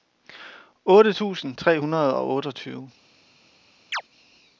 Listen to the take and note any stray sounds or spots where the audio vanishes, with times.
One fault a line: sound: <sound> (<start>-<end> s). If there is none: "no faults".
sound: chirp (3.9-4.0 s)